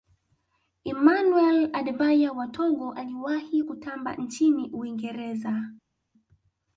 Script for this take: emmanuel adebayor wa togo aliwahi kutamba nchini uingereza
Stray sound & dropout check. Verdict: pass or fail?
pass